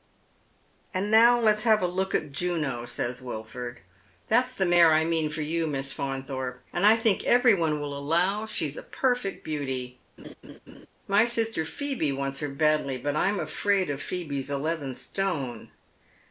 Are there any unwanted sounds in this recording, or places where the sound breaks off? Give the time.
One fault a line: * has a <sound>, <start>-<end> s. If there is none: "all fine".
* has a laugh, 10.2-10.9 s